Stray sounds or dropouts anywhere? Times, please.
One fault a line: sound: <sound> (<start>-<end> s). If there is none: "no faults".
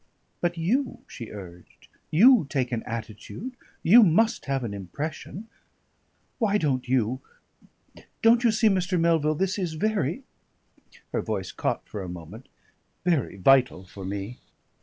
no faults